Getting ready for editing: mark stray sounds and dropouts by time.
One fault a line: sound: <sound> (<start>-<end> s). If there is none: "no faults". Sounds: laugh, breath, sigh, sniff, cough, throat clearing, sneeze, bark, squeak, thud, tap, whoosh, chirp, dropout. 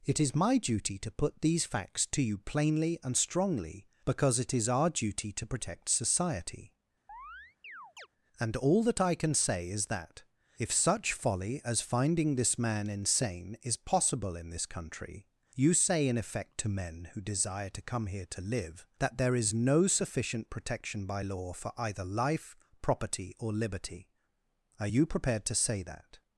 sound: chirp (7.1-8.1 s)